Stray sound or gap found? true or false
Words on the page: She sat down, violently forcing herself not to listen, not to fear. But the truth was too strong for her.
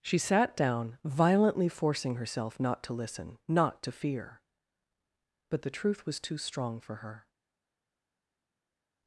false